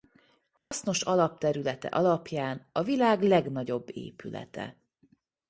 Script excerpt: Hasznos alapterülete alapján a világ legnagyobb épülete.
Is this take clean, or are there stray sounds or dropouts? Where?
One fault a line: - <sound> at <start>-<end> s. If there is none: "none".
- dropout at 0.6-0.7 s